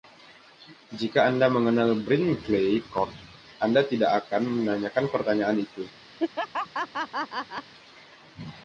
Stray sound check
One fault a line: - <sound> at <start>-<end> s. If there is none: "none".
- laugh at 6.2-7.7 s